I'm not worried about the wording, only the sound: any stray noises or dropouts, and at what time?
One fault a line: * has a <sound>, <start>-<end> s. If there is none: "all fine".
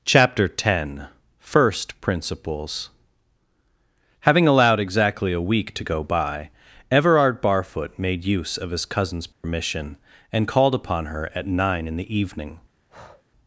* has a dropout, 9.3-9.4 s
* has a breath, 12.9-13.2 s